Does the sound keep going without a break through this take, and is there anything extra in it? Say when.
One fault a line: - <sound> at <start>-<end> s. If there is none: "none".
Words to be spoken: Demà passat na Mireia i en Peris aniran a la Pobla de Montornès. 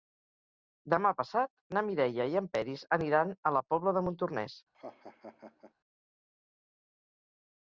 - laugh at 4.7-5.7 s